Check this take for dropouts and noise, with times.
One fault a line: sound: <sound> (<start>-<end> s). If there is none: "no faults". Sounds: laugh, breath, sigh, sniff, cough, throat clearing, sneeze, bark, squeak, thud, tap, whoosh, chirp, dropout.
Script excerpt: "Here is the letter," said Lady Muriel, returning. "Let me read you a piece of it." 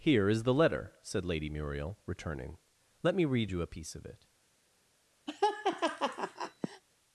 sound: laugh (5.3-6.8 s)